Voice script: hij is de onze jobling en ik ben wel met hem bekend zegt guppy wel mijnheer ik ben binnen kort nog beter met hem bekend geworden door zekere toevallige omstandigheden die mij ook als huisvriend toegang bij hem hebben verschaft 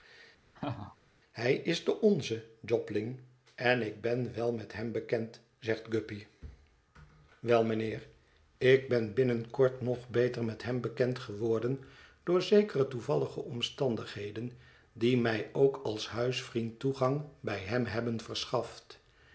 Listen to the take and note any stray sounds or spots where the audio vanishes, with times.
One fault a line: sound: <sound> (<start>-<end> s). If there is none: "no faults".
sound: laugh (0.5-1.0 s)